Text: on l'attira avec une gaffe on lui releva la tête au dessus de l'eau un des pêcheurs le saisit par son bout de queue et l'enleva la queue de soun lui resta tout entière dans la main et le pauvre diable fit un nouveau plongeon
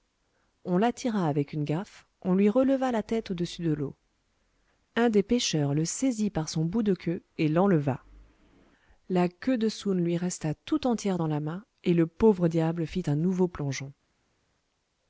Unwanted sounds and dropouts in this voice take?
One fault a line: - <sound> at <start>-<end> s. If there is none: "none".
none